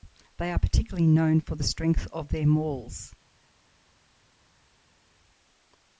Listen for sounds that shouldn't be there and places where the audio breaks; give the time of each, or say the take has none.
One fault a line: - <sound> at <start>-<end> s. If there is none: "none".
none